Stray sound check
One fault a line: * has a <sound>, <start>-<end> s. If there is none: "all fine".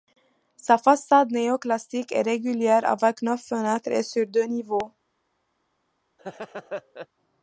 * has a laugh, 6.2-7.1 s